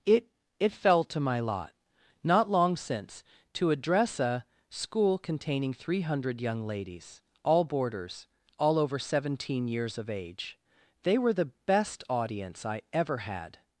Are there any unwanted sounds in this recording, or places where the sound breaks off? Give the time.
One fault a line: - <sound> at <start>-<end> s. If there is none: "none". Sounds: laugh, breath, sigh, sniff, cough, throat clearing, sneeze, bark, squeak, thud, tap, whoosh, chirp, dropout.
none